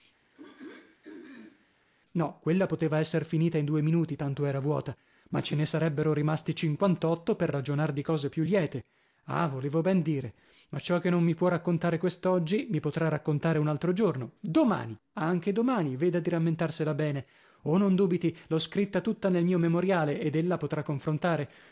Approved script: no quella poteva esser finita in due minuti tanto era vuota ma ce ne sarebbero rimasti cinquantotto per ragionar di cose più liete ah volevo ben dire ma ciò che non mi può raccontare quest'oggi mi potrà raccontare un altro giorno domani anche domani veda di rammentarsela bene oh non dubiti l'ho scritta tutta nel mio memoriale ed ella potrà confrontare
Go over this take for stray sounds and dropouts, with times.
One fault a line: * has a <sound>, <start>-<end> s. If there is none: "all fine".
* has a throat clearing, 0.3-1.7 s